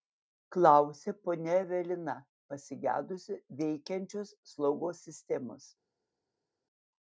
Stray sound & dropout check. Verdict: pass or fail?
pass